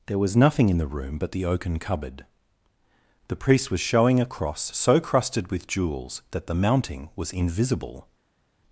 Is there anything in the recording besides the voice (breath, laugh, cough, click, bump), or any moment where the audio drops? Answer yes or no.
no